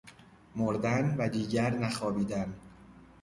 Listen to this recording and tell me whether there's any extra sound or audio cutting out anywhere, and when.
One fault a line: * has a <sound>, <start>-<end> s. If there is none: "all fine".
all fine